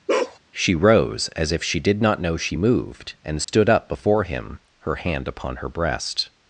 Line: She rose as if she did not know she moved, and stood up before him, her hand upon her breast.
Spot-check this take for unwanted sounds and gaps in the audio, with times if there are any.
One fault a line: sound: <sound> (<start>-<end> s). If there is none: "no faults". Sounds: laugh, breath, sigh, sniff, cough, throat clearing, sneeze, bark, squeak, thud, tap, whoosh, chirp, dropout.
sound: bark (0.1-0.4 s)
sound: dropout (3.4-3.5 s)